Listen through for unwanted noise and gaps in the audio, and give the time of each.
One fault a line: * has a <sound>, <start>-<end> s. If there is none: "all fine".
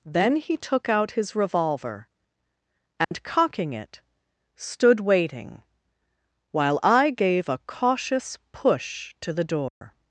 * has a dropout, 3.0-3.1 s
* has a dropout, 9.7-9.8 s